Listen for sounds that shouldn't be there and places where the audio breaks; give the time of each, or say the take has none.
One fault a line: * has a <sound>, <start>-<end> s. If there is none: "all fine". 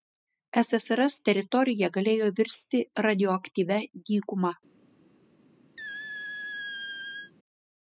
* has a squeak, 5.8-7.3 s